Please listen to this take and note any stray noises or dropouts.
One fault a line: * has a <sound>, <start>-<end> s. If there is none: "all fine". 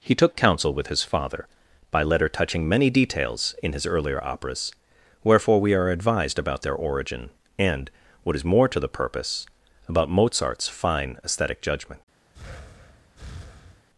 * has a breath, 12.3-13.9 s